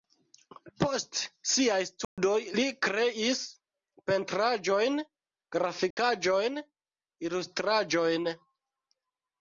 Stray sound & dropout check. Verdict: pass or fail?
fail